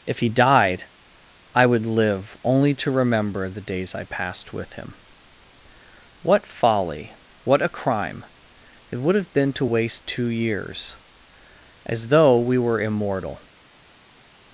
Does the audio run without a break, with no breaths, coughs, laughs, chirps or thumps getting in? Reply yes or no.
yes